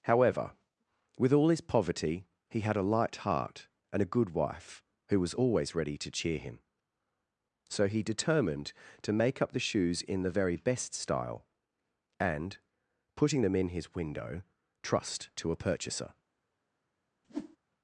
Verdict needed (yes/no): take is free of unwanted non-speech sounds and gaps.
no